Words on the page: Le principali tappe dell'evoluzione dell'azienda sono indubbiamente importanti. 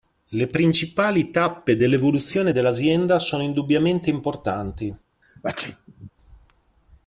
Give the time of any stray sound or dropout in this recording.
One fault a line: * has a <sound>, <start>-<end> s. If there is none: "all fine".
* has a sneeze, 5.2-6.1 s